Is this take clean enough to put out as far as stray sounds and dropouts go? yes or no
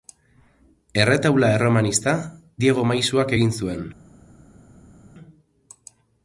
yes